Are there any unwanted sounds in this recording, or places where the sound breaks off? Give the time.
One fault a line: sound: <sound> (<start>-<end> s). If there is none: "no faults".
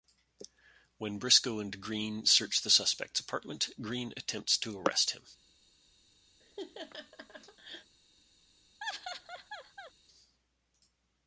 sound: laugh (6.4-7.9 s)
sound: laugh (8.8-9.9 s)